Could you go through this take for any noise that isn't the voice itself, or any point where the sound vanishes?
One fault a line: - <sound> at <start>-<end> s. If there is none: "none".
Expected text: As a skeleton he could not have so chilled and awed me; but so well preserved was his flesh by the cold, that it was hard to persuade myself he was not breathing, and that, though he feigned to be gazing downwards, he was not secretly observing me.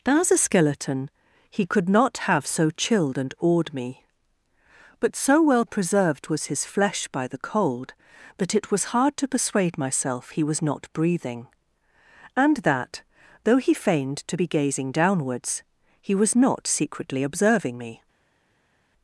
none